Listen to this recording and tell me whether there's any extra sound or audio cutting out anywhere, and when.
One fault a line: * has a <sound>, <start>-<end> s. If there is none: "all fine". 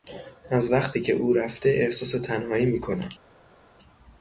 all fine